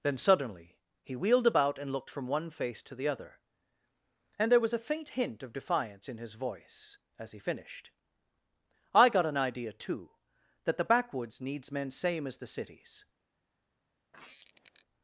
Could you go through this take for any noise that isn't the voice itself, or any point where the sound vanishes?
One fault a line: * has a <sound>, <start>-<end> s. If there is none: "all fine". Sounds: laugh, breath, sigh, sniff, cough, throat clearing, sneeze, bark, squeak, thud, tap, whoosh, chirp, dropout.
* has a squeak, 14.1-14.9 s